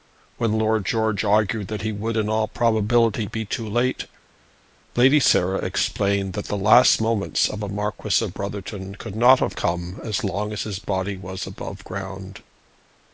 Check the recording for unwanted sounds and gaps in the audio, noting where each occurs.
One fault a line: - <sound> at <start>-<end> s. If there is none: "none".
none